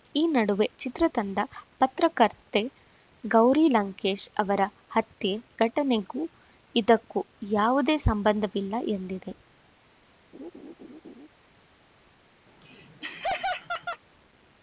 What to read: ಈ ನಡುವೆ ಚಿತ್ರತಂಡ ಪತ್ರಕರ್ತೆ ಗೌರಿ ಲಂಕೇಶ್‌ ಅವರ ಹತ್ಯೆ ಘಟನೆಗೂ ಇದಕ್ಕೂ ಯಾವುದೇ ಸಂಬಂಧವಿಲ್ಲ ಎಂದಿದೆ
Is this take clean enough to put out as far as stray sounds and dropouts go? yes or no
no